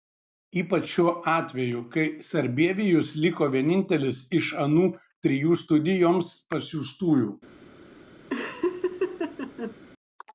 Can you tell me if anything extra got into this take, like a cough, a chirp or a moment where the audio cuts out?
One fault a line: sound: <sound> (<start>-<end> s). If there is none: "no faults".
sound: laugh (8.3-9.8 s)